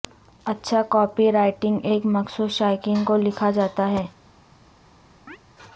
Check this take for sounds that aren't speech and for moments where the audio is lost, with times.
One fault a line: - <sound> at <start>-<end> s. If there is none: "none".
- chirp at 5.3-5.4 s